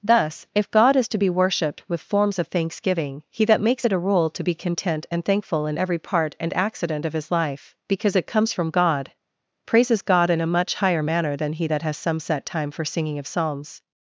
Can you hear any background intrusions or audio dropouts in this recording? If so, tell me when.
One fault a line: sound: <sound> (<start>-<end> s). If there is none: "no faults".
no faults